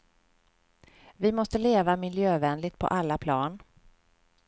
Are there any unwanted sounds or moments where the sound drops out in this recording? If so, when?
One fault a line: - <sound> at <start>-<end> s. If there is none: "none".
none